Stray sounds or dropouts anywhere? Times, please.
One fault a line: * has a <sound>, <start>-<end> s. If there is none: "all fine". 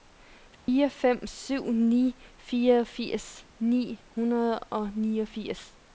* has a dropout, 0.5-0.7 s